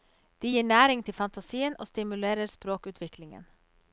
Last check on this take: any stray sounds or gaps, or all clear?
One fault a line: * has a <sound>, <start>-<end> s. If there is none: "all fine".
all fine